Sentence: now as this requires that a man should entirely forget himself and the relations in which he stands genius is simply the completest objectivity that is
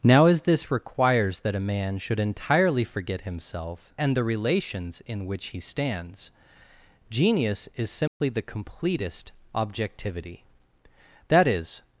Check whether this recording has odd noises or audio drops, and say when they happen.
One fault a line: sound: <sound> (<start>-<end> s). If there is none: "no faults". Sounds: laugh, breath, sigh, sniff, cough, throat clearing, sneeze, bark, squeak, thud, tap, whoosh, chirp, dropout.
sound: dropout (8.1-8.2 s)